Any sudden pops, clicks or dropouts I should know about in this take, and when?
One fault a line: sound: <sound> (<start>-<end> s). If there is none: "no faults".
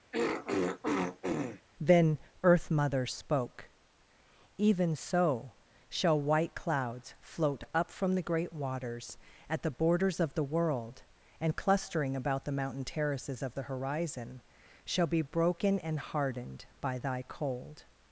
sound: throat clearing (0.1-1.6 s)